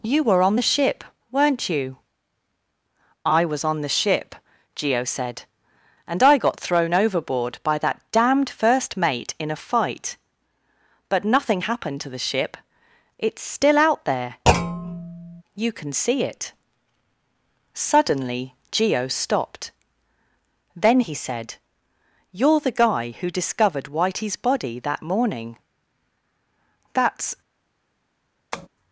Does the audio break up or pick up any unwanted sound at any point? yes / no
yes